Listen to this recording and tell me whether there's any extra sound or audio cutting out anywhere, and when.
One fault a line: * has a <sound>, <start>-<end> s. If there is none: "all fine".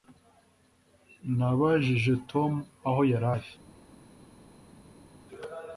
all fine